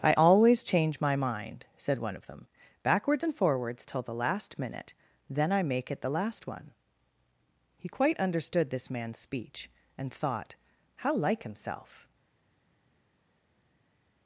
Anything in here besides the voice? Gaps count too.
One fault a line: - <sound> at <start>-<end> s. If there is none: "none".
none